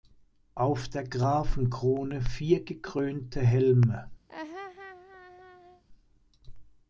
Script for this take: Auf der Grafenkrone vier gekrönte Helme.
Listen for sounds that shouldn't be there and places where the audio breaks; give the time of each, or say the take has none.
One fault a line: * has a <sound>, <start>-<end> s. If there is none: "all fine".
* has a laugh, 4.3-5.8 s